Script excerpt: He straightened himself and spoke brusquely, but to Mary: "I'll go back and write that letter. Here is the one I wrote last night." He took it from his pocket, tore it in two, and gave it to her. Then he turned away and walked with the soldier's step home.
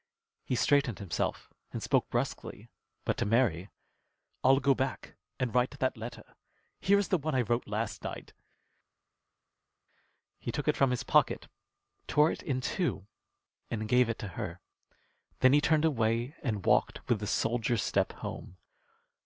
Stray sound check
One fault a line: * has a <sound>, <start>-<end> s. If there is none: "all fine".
all fine